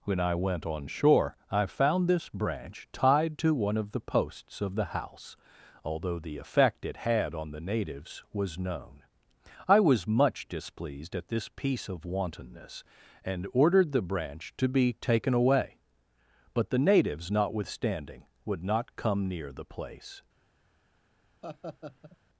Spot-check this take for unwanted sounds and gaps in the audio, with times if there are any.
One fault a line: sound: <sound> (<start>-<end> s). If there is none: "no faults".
sound: laugh (21.4-22.2 s)